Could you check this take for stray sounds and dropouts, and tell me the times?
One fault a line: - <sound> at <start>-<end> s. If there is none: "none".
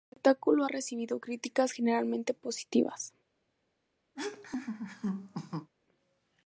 - laugh at 4.2-5.7 s